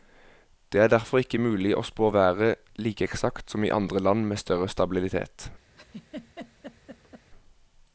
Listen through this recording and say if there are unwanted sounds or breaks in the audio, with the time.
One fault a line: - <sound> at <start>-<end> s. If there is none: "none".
- laugh at 5.7-7.3 s